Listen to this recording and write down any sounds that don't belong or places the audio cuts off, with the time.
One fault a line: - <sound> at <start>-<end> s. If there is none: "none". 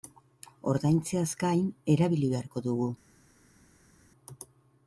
none